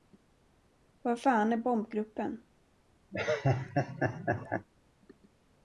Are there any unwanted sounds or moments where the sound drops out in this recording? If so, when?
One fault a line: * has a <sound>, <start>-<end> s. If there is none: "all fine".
* has a laugh, 3.1-4.7 s